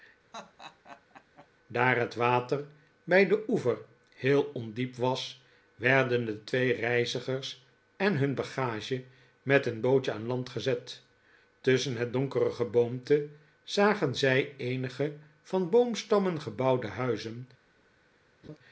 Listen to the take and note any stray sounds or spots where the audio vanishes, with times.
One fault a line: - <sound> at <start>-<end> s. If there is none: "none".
- laugh at 0.3-1.5 s
- laugh at 18.4-18.6 s